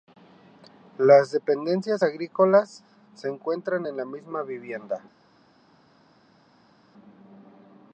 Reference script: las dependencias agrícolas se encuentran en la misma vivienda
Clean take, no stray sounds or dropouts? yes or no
yes